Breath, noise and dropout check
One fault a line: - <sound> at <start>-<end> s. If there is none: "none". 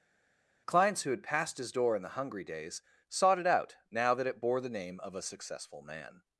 none